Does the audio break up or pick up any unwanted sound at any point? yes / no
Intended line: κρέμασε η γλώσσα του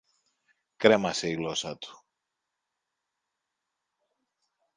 no